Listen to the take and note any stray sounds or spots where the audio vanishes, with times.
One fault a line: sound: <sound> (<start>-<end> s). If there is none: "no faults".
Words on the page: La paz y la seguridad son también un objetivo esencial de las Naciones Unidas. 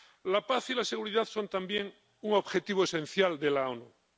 no faults